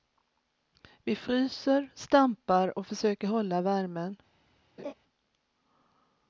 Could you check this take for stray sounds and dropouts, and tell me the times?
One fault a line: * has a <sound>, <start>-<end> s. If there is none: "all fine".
* has a laugh, 4.8-4.9 s